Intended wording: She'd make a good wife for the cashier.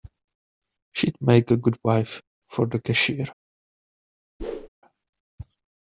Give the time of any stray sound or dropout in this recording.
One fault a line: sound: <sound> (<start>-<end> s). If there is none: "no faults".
sound: whoosh (4.4-4.7 s)